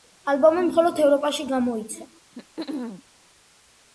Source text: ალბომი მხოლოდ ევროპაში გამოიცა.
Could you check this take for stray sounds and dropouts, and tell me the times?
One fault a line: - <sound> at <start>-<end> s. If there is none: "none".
- throat clearing at 2.3-3.0 s